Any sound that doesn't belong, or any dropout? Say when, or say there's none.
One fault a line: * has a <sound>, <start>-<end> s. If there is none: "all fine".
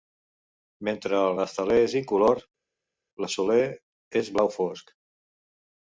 all fine